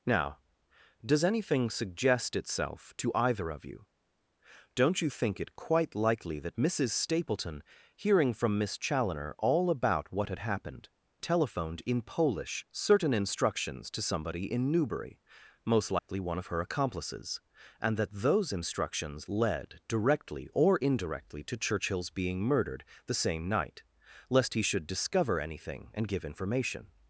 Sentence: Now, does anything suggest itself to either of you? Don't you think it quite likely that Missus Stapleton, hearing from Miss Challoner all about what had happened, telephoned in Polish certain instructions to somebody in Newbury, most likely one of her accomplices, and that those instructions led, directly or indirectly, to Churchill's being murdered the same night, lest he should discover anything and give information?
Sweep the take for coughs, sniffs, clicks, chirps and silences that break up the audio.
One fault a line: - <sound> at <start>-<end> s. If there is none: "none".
- dropout at 16.0-16.1 s